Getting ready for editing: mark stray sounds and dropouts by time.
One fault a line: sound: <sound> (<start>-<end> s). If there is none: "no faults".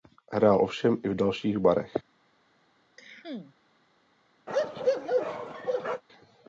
sound: cough (3.0-3.6 s)
sound: bark (4.5-6.0 s)